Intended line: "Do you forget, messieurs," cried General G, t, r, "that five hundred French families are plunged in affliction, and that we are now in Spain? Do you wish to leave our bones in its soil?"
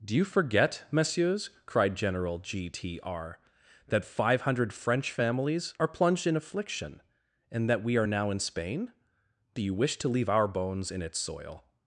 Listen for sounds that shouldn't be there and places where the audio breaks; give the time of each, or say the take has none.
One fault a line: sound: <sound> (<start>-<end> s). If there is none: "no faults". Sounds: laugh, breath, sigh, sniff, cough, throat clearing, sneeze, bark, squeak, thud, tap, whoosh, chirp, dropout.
no faults